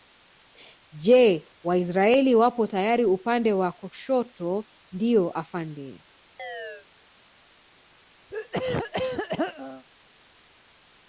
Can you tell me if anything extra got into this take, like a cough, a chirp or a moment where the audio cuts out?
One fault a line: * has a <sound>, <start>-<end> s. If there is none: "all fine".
* has a chirp, 6.4-6.9 s
* has a throat clearing, 8.3-9.8 s